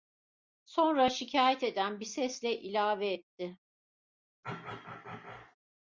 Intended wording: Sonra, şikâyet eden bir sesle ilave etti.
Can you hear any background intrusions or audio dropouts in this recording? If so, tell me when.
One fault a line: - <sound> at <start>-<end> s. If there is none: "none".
- throat clearing at 4.4-5.6 s